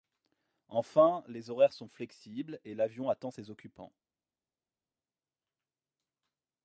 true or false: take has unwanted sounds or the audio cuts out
false